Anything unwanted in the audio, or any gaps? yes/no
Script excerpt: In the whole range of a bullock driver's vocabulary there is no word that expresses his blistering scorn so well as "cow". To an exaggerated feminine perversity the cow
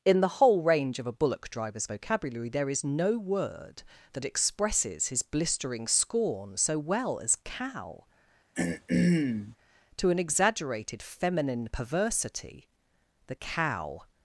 yes